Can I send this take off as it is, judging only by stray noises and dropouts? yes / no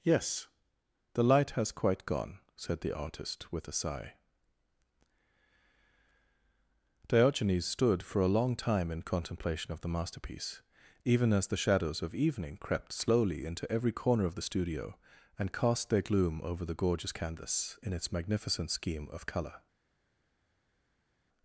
yes